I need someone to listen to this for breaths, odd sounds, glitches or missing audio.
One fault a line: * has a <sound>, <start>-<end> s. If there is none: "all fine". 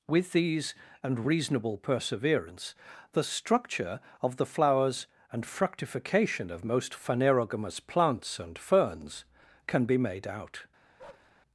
* has a bark, 11.0-11.3 s